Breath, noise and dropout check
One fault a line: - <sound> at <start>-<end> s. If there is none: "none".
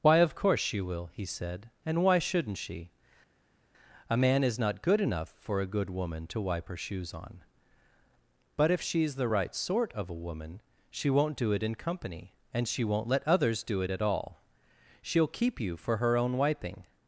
none